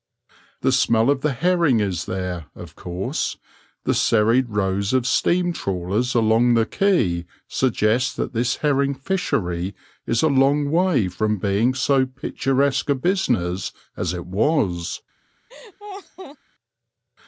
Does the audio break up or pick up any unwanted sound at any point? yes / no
yes